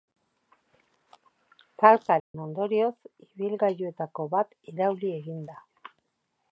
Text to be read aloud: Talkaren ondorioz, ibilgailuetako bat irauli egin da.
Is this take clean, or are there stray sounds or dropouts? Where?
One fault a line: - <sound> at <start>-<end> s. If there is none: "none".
- dropout at 2.2-2.3 s